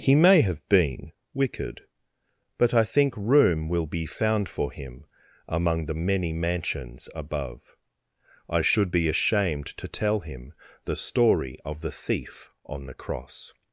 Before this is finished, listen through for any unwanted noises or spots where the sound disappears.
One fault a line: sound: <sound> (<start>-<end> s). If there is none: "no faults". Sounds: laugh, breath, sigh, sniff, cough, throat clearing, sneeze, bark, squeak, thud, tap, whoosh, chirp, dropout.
no faults